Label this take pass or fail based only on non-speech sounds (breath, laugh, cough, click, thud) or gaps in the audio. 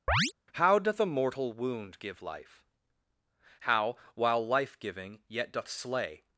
fail